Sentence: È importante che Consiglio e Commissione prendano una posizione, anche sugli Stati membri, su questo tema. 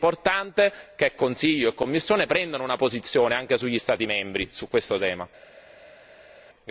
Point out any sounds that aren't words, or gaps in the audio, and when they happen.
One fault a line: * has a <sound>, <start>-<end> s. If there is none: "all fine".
all fine